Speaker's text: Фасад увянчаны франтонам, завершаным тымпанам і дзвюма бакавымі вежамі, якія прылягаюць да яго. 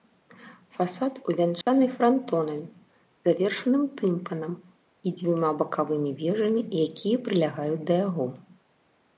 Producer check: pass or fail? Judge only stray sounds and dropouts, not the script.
fail